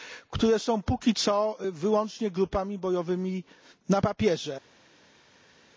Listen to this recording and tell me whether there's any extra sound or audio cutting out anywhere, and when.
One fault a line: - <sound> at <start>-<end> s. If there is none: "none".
none